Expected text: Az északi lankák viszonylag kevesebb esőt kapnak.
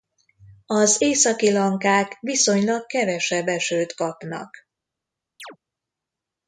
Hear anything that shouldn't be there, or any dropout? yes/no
yes